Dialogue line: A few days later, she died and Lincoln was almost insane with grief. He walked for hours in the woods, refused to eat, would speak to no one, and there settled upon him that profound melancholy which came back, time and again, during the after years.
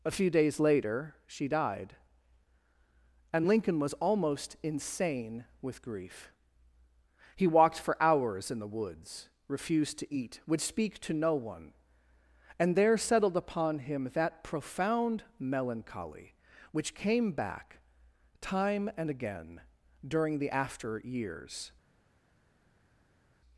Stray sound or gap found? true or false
false